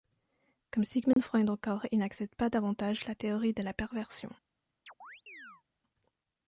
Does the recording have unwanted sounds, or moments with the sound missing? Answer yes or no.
yes